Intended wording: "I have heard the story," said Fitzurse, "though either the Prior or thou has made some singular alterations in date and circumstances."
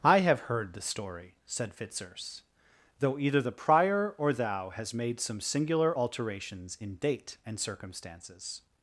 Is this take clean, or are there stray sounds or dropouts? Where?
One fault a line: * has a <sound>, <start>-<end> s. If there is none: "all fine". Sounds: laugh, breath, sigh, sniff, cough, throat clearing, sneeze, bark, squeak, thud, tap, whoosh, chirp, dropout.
all fine